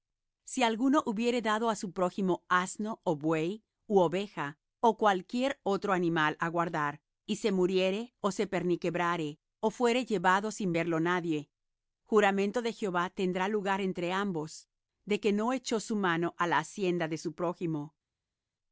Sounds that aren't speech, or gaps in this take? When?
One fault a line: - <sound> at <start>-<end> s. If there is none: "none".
none